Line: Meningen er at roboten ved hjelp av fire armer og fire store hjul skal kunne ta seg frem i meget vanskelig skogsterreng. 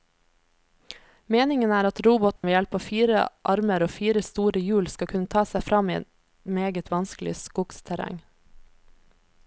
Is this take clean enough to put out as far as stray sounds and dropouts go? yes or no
no